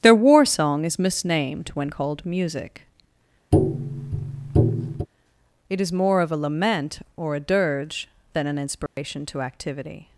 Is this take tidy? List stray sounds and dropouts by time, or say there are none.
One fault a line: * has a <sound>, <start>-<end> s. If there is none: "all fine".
* has a tap, 3.5-5.1 s
* has a dropout, 8.9-9.0 s